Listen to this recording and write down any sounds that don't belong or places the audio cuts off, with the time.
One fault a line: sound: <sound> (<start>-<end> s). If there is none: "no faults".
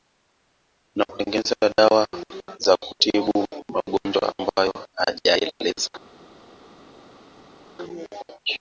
no faults